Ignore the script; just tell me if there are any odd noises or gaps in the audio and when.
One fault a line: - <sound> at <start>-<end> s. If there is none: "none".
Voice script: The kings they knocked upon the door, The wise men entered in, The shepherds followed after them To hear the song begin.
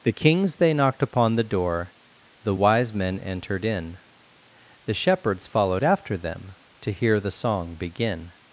none